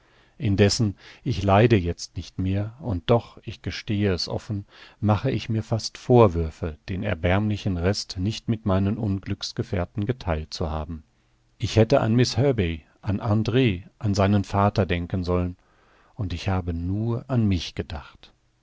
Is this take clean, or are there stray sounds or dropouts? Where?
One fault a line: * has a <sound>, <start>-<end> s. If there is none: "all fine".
all fine